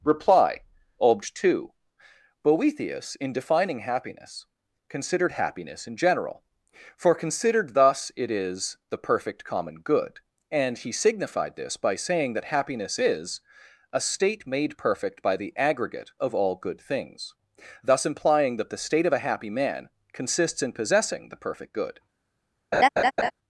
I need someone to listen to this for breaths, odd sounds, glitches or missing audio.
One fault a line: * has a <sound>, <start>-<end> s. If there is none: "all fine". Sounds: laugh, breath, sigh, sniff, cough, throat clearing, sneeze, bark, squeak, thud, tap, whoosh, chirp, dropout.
* has a laugh, 22.7-23.3 s